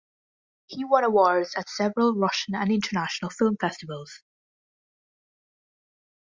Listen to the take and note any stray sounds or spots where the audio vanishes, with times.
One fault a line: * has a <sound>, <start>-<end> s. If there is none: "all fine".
all fine